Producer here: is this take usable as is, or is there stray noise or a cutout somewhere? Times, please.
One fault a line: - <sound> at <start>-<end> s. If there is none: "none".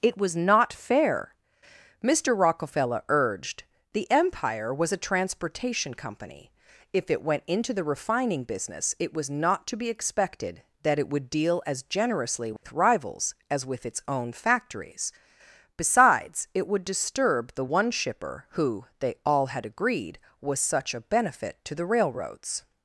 - dropout at 12.6-12.6 s